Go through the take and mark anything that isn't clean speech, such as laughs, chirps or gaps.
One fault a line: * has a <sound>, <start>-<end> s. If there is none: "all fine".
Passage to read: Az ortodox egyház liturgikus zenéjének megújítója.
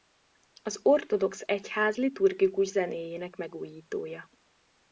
all fine